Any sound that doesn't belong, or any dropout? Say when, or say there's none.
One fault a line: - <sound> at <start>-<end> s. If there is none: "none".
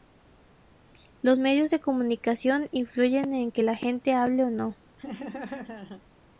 - laugh at 5.0-6.0 s